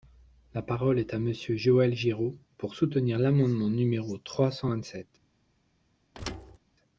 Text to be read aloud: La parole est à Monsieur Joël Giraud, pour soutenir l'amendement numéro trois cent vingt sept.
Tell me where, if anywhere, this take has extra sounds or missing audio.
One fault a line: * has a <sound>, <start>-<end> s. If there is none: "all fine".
* has a thud, 6.1-6.6 s